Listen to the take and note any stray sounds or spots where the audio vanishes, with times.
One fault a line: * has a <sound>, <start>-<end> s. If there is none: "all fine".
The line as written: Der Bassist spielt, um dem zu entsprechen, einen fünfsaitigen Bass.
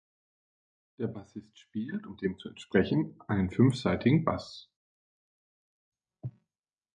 all fine